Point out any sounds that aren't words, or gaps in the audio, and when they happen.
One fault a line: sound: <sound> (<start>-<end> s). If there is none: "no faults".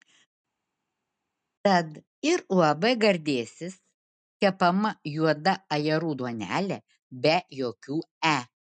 no faults